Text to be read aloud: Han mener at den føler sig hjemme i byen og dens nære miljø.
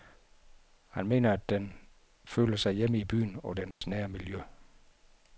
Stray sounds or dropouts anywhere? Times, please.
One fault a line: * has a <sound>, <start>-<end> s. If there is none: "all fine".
* has a dropout, 3.7-3.8 s